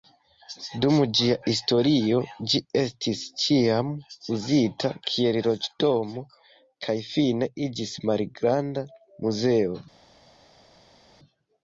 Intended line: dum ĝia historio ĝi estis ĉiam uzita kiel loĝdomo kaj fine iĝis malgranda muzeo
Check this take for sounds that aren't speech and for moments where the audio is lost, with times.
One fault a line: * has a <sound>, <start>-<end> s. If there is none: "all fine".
all fine